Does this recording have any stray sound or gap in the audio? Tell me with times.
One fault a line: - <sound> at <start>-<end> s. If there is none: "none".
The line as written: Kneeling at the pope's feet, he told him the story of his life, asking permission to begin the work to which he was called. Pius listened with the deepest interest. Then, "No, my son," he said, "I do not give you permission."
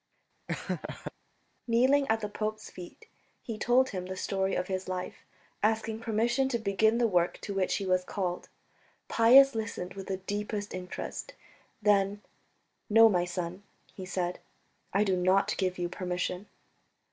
- laugh at 0.5-1.1 s